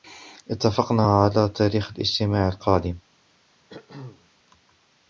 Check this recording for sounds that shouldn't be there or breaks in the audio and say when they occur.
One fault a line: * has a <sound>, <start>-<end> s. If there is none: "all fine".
* has a throat clearing, 3.7-4.3 s